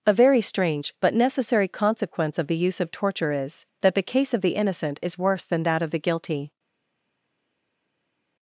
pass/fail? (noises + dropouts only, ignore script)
pass